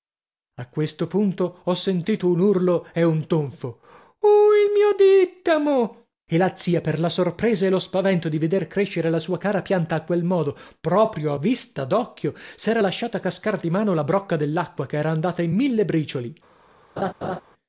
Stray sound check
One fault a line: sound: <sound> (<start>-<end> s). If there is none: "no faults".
sound: laugh (17.0-17.4 s)